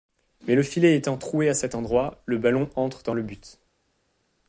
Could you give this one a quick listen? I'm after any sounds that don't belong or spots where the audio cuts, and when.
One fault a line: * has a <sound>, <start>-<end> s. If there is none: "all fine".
all fine